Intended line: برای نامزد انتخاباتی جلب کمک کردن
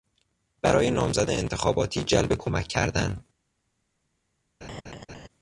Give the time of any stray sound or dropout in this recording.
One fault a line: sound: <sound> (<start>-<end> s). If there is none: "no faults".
sound: laugh (4.6-5.3 s)